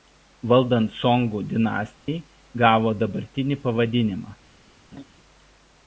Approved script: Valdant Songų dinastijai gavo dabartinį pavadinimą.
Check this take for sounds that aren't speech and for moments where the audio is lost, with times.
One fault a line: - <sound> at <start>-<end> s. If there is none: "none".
- dropout at 2.0-2.1 s
- laugh at 4.9-5.0 s